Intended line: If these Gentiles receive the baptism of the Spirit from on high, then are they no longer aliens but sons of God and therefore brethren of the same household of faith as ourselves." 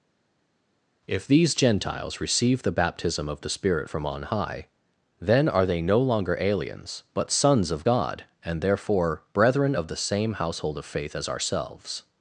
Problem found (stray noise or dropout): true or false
false